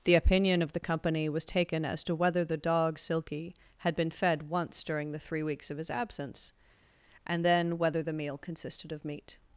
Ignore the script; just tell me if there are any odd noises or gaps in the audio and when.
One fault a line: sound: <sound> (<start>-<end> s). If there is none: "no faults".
no faults